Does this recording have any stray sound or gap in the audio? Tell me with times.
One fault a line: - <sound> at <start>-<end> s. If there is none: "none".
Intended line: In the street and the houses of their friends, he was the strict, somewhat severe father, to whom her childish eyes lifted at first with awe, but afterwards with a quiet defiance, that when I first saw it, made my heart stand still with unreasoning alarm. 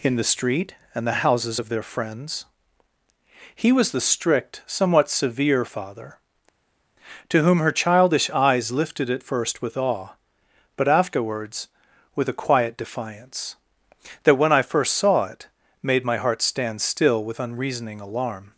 none